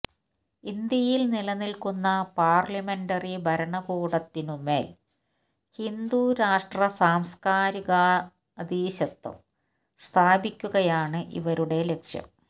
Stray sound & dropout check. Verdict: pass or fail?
pass